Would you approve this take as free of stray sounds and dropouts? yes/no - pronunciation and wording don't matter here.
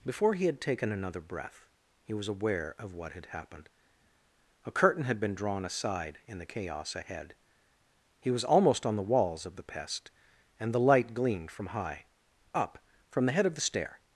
yes